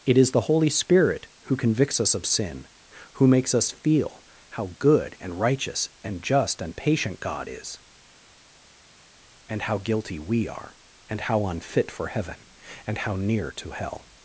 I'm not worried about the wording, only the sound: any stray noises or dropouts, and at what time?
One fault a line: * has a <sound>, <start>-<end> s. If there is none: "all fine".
all fine